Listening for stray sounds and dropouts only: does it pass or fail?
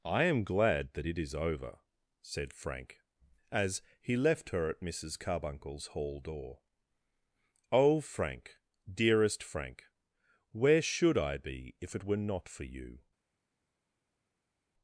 pass